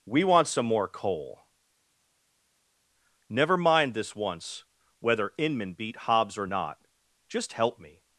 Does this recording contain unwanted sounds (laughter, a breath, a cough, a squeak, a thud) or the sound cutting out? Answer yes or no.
no